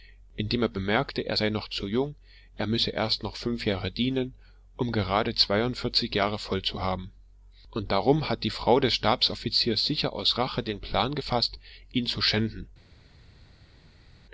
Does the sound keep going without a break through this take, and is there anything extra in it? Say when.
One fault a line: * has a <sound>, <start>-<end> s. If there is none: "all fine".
all fine